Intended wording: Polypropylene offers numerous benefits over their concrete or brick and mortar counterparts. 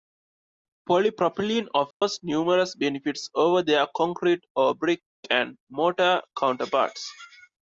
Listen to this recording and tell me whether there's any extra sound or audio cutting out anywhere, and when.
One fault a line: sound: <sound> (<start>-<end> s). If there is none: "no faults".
sound: dropout (1.9-2.0 s)